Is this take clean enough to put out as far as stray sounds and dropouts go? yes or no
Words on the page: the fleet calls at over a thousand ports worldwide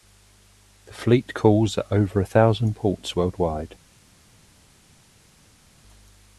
yes